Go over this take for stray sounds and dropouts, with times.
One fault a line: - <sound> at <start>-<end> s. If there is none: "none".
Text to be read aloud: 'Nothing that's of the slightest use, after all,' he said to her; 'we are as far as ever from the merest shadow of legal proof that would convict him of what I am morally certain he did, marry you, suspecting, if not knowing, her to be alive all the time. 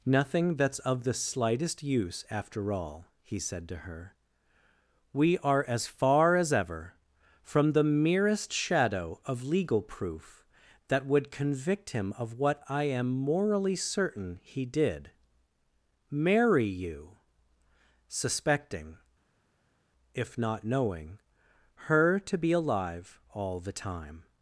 none